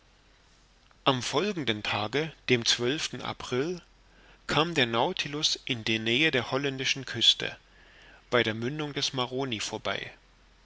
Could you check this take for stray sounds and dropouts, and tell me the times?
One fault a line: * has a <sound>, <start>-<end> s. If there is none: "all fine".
all fine